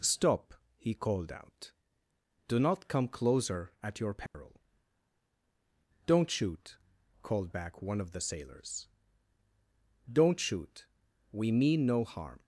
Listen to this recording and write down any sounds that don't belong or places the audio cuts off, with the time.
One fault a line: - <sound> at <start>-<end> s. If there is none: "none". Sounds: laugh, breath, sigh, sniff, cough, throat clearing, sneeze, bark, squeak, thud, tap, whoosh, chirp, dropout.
- dropout at 4.3-4.3 s